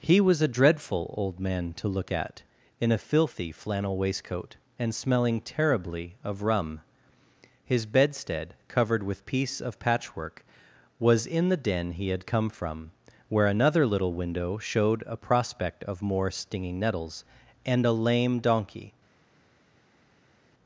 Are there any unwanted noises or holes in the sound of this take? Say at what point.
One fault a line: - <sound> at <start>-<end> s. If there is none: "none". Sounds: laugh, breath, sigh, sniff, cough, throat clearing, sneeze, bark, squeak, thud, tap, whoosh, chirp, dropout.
none